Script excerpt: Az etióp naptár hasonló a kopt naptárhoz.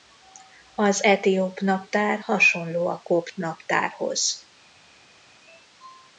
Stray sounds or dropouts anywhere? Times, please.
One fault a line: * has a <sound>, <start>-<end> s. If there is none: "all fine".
all fine